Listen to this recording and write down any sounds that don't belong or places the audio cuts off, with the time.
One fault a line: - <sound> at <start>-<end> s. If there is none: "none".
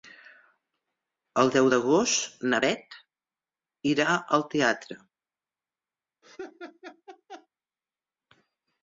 - laugh at 6.2-7.5 s